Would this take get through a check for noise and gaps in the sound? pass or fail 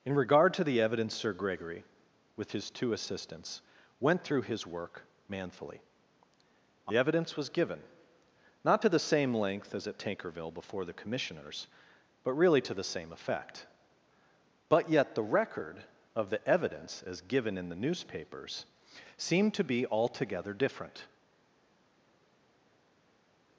pass